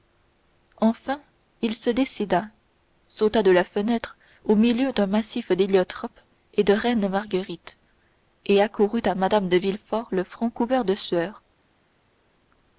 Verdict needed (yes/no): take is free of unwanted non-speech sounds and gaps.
yes